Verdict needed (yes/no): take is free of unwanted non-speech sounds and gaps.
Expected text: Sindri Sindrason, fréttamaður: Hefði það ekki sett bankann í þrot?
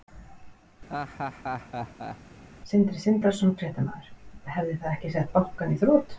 no